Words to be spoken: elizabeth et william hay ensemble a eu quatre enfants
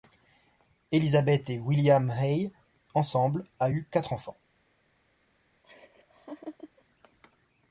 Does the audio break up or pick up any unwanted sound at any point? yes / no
yes